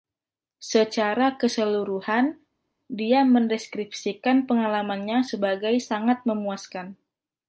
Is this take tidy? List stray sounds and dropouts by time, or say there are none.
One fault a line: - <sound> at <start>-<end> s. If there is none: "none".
none